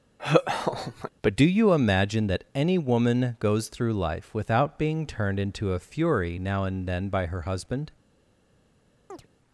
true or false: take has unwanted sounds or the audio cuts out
true